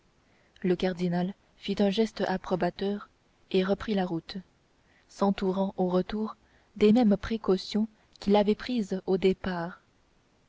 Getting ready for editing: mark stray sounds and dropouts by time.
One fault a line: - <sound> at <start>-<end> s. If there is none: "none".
none